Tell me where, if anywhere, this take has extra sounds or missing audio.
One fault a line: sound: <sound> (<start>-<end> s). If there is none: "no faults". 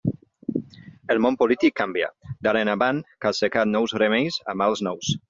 no faults